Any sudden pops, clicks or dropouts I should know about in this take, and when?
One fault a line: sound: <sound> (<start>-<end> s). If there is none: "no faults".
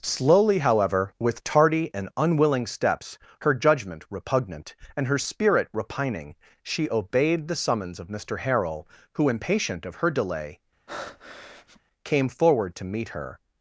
sound: breath (10.9-11.8 s)